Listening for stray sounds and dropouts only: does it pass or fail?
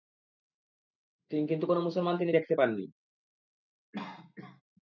fail